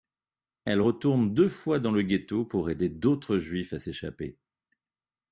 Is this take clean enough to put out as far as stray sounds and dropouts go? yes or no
yes